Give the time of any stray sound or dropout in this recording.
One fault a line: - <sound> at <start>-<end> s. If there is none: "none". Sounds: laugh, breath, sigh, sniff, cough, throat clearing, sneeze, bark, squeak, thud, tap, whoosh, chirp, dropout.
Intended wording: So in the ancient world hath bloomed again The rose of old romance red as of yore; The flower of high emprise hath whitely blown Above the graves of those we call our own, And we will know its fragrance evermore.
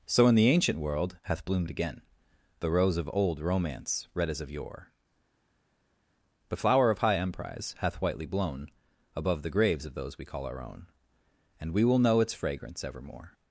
none